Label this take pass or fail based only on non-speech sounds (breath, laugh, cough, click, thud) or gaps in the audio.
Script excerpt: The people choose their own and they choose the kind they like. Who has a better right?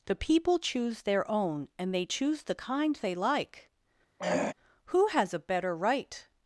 fail